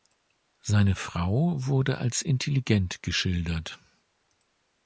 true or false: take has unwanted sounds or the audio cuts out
false